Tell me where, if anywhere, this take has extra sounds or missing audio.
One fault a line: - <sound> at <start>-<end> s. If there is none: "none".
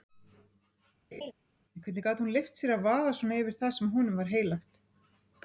- laugh at 1.1-1.3 s